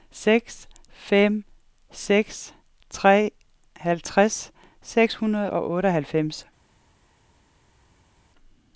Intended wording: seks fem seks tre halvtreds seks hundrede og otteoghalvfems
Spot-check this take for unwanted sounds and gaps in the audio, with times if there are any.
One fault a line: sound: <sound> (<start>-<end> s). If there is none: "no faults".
no faults